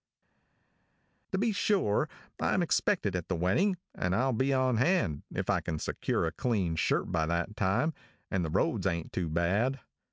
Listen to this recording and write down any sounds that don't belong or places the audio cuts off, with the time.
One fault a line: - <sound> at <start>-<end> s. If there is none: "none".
none